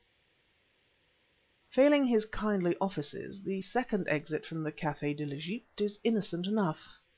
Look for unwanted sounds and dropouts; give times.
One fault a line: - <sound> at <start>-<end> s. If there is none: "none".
none